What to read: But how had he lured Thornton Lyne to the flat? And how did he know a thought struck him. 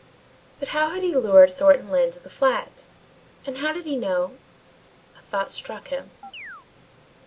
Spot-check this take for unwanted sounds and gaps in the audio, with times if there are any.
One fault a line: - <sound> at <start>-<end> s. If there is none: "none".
- chirp at 6.2-6.7 s